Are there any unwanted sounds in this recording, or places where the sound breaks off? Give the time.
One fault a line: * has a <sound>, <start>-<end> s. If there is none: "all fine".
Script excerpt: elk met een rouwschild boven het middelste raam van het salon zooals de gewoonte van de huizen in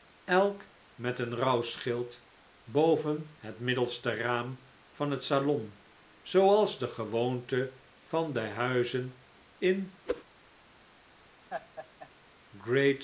* has a whoosh, 10.1-10.2 s
* has a laugh, 11.5-12.1 s